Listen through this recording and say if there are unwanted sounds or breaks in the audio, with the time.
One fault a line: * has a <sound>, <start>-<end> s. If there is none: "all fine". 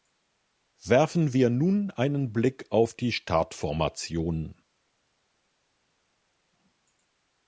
all fine